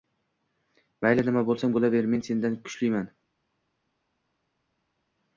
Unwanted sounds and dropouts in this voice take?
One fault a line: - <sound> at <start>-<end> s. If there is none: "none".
none